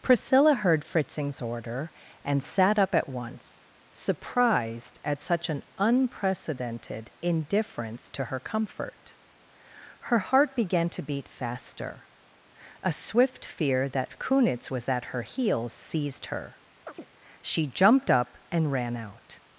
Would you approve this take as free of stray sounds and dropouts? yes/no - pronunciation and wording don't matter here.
no